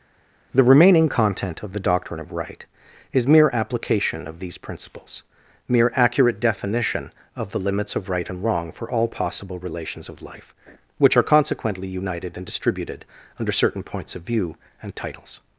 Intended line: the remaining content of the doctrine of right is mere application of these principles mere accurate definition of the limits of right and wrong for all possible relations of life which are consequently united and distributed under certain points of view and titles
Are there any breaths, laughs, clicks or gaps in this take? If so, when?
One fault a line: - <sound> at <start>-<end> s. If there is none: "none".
none